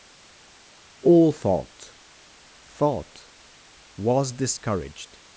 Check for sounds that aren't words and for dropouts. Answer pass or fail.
pass